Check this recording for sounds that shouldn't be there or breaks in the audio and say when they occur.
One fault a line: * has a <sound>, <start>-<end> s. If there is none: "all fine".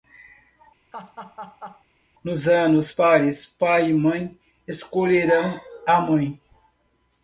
* has a laugh, 0.9-1.8 s